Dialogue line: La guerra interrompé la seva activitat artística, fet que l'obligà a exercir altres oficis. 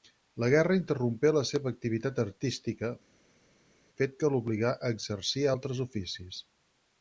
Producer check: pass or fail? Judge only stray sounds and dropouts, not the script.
pass